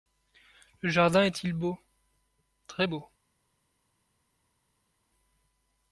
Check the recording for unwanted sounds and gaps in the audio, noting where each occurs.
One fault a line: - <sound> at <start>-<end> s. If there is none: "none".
none